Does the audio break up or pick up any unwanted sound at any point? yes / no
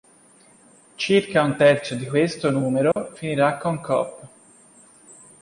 yes